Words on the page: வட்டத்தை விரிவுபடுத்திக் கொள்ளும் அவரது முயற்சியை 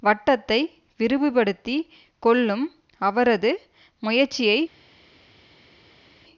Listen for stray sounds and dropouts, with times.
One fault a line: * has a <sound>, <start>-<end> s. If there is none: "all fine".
all fine